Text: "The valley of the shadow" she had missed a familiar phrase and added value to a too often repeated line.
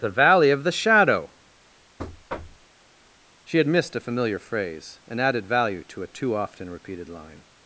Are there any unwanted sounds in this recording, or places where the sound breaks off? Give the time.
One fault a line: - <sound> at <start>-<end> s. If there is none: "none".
- thud at 2.0-2.7 s